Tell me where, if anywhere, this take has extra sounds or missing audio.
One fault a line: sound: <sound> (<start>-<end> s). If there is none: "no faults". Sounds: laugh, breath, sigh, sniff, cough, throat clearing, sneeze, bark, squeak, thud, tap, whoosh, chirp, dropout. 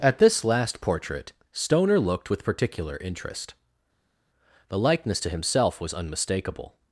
no faults